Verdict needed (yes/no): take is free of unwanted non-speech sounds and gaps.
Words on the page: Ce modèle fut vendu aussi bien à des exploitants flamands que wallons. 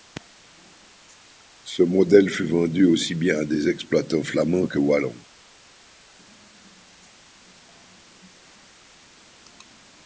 yes